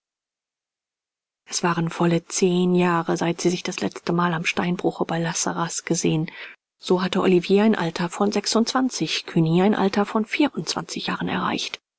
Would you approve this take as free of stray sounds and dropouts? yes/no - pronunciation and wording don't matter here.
yes